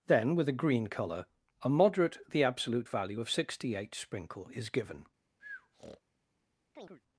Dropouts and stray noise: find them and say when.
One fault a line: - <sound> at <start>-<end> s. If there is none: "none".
- breath at 5.4-6.0 s
- chirp at 6.8-7.0 s